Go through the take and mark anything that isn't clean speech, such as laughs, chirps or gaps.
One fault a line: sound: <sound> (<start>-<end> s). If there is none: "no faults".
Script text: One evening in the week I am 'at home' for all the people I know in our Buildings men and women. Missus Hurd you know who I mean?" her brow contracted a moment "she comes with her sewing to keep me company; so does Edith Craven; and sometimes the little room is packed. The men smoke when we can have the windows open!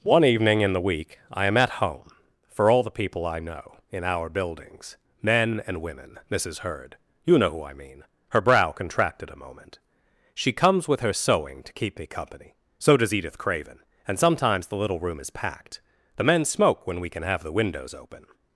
no faults